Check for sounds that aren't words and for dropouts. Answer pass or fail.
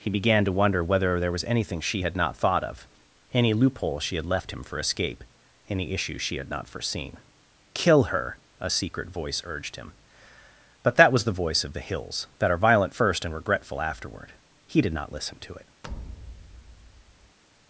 fail